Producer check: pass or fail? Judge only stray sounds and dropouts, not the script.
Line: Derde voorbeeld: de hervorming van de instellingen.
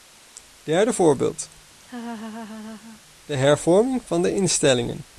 fail